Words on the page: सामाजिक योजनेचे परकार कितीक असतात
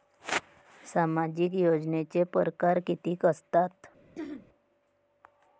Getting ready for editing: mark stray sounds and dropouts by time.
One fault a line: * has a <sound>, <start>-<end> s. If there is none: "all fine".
* has a throat clearing, 4.2-4.5 s